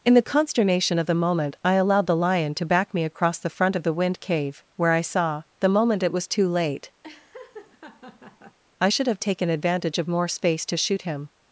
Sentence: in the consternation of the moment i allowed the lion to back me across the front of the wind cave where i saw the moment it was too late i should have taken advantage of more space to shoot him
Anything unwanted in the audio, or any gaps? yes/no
yes